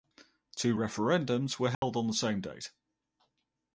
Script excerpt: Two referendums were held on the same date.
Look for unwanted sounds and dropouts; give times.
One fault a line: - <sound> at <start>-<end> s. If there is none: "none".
- dropout at 1.7-1.8 s